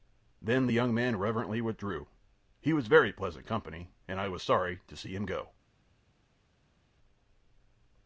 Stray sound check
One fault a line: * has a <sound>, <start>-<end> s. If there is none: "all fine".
all fine